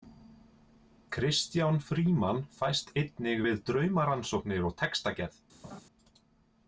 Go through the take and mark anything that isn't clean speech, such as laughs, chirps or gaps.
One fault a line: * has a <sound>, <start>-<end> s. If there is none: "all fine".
* has a laugh, 5.6-5.8 s